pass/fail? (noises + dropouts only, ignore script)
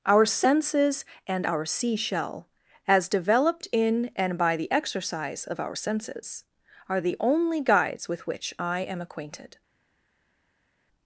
pass